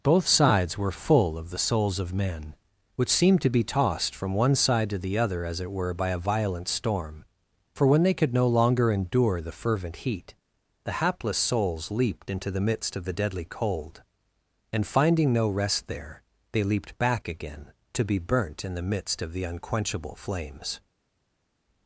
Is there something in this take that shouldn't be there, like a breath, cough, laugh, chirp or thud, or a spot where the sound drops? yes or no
no